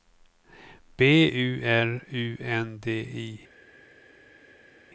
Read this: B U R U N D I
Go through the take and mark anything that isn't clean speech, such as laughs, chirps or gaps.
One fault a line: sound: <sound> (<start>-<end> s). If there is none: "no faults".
no faults